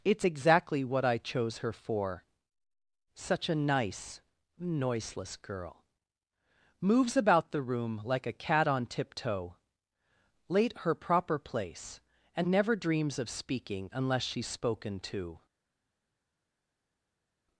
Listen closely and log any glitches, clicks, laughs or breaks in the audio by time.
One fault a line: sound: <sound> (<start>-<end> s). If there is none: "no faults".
no faults